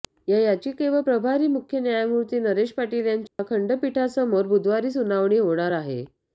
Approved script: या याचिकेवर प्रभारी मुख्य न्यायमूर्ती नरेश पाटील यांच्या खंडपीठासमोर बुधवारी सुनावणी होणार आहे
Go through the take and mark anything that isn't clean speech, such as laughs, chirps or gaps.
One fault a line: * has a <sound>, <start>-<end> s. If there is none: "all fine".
* has a dropout, 3.3-3.4 s